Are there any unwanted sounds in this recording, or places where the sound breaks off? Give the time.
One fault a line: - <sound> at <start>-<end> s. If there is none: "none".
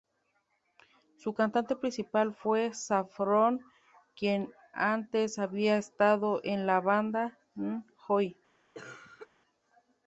- cough at 8.7-9.3 s